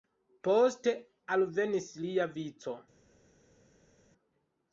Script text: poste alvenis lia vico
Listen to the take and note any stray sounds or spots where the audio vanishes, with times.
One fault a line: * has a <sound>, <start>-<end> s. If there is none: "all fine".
all fine